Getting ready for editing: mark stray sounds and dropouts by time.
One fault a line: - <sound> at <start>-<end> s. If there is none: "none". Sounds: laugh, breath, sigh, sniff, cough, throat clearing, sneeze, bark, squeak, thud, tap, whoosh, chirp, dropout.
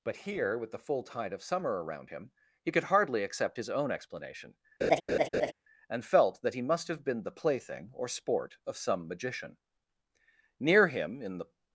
- laugh at 4.8-5.5 s